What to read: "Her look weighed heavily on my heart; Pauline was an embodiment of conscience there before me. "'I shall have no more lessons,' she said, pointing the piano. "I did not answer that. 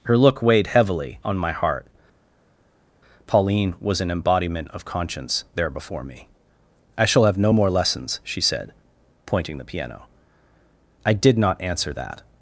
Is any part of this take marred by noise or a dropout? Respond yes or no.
no